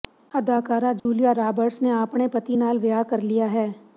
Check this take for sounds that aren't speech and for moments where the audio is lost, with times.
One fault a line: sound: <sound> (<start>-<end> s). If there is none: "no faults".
sound: dropout (1.0-1.1 s)